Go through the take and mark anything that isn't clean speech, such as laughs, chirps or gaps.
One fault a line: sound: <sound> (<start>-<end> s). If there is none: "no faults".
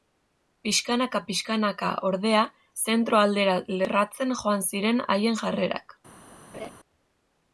sound: laugh (6.5-6.7 s)